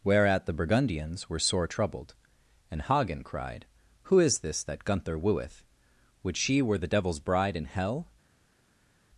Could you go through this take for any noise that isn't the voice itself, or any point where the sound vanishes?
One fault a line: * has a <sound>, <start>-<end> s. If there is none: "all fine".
all fine